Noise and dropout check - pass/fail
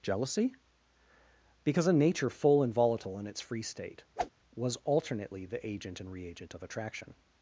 fail